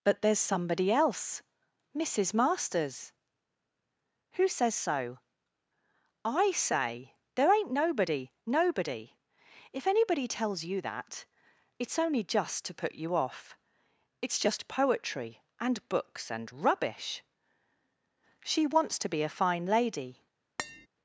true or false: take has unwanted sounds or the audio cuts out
true